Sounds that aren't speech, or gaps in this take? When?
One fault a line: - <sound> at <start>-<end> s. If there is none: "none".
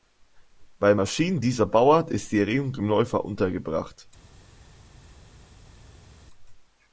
none